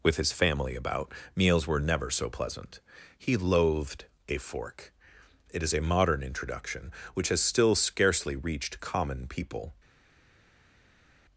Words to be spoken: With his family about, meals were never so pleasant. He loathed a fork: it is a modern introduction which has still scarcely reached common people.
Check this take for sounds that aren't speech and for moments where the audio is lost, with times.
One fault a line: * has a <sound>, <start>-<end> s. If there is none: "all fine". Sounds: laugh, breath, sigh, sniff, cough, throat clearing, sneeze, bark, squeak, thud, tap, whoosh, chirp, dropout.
all fine